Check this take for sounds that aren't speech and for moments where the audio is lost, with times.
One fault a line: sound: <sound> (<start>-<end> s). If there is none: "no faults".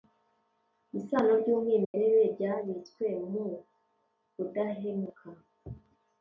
sound: dropout (1.8-1.9 s)